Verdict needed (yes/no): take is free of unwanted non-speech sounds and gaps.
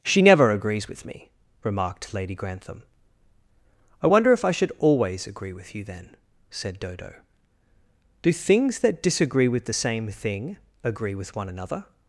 yes